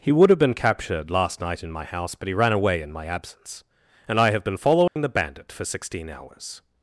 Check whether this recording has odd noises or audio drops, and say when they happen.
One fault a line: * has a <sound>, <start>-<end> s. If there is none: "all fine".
* has a dropout, 4.9-5.0 s